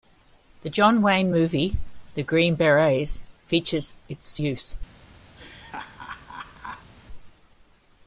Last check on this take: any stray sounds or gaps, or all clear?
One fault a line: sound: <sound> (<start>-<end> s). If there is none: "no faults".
sound: laugh (5.4-6.9 s)